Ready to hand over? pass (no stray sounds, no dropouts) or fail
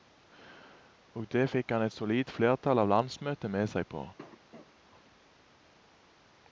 fail